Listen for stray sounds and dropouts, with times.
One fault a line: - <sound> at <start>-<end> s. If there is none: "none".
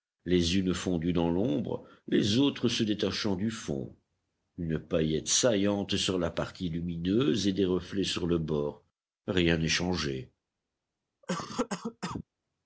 - cough at 11.2-12.2 s